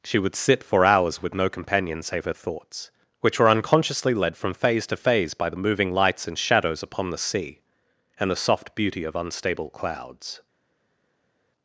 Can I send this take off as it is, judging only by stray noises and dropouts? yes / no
yes